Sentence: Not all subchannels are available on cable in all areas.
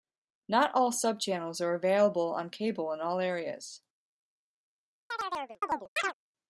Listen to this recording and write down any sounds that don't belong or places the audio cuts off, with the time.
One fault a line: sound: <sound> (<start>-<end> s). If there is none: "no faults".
sound: chirp (5.1-6.1 s)